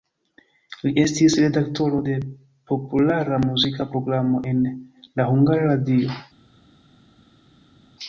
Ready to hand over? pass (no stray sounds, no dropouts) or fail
pass